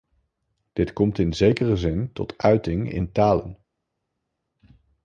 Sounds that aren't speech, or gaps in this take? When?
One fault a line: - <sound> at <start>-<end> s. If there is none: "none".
none